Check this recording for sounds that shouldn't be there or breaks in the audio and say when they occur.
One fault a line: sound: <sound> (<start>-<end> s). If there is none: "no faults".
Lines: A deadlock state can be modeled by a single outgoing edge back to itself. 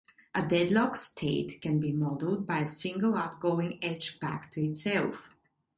no faults